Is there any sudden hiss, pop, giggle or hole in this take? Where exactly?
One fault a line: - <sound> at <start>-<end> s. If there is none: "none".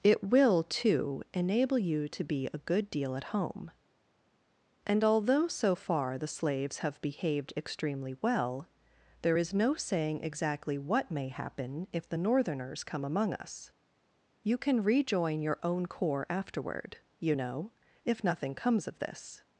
none